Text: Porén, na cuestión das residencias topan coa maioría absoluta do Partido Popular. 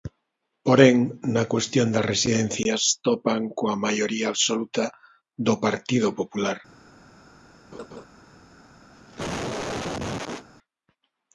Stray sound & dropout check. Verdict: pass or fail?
fail